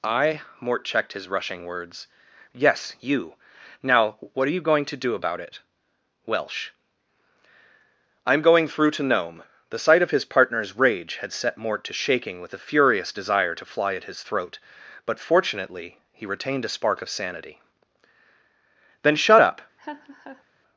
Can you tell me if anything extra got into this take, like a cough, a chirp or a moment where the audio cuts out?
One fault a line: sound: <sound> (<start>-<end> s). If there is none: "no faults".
sound: laugh (19.8-20.4 s)